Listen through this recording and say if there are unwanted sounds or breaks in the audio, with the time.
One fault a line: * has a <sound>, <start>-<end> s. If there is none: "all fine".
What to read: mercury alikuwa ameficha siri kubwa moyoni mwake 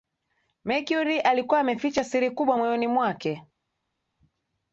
all fine